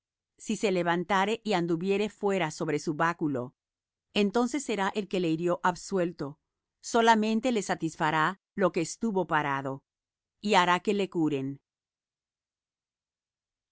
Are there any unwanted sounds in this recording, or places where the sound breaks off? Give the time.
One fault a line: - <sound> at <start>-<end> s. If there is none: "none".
none